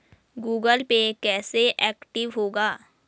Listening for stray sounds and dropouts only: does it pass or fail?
pass